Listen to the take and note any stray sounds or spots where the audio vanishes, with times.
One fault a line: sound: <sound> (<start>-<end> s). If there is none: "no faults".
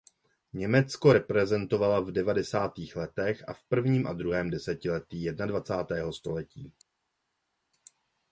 no faults